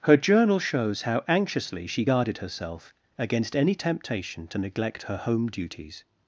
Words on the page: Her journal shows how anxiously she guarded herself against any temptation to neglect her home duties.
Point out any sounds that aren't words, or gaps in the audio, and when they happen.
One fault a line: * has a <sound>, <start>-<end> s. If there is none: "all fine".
all fine